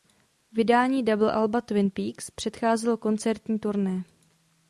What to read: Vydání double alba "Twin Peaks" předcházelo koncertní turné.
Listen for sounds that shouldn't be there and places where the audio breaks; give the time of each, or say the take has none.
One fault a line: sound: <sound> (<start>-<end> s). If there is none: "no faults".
no faults